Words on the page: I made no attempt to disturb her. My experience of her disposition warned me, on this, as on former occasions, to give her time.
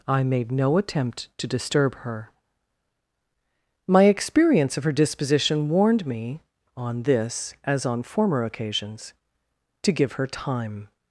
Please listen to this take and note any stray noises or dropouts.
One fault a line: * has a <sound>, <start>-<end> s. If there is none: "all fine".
all fine